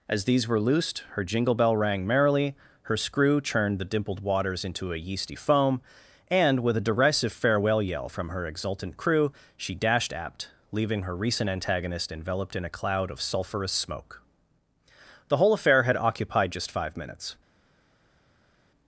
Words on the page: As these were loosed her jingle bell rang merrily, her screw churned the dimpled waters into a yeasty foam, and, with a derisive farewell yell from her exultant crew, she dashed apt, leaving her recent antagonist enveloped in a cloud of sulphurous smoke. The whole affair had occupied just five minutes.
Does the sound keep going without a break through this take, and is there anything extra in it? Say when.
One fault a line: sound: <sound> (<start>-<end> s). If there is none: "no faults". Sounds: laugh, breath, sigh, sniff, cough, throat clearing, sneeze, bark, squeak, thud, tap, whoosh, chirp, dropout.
no faults